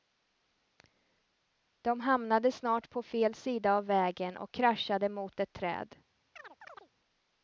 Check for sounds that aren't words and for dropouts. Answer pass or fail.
fail